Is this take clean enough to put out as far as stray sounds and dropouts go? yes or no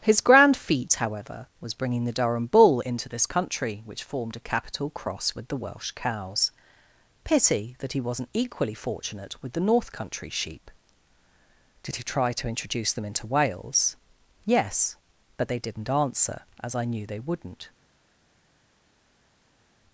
yes